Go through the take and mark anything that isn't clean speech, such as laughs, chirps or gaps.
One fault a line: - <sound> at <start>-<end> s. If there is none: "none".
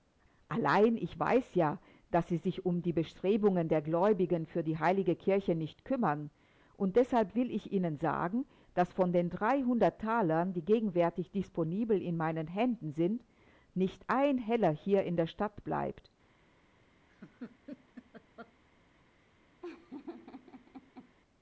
- laugh at 17.1-18.5 s
- laugh at 19.6-21.1 s